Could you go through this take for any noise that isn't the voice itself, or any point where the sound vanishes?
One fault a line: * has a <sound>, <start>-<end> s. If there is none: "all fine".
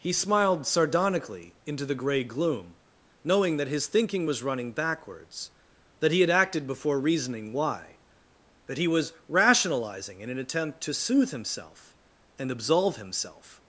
all fine